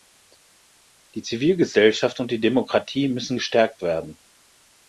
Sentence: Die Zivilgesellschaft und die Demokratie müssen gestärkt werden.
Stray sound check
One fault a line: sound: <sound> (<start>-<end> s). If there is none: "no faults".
no faults